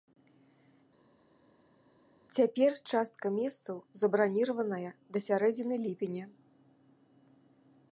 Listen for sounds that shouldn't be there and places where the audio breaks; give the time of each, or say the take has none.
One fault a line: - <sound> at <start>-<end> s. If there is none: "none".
none